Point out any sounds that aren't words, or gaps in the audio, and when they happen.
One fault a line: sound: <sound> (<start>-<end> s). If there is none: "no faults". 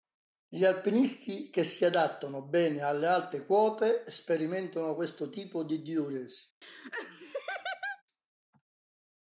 sound: laugh (6.6-8.0 s)